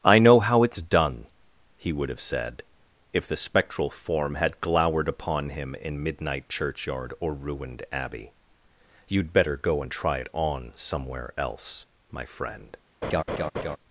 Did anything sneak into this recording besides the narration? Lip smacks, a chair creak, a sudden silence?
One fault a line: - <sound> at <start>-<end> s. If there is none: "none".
- laugh at 13.0-13.8 s